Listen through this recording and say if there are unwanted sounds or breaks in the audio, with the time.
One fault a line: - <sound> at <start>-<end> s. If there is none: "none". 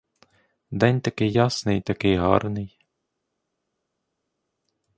none